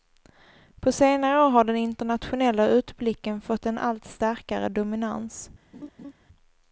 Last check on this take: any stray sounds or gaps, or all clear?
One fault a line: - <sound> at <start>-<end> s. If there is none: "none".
- laugh at 5.7-6.1 s